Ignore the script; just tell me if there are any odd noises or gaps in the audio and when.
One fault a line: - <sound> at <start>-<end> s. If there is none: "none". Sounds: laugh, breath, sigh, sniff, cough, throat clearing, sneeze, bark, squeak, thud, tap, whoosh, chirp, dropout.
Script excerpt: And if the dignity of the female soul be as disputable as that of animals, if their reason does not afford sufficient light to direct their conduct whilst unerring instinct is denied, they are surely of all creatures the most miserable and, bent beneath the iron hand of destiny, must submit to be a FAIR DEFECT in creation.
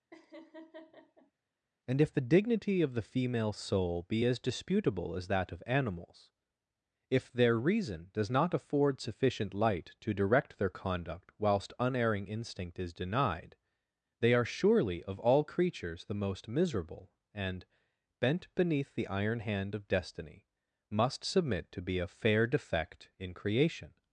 - laugh at 0.1-1.3 s